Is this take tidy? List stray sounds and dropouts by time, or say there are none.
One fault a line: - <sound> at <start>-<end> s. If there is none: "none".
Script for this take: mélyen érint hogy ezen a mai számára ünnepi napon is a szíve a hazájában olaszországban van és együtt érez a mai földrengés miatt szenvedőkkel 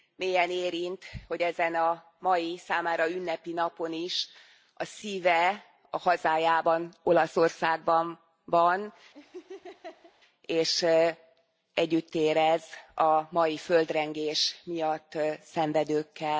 - laugh at 9.1-10.1 s